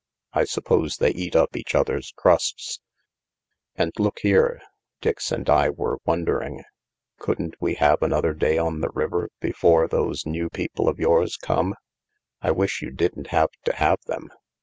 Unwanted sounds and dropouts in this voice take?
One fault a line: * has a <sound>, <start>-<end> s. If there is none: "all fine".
all fine